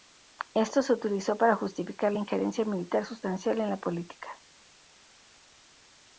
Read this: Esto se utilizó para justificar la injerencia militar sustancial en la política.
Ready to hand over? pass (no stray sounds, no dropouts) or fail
pass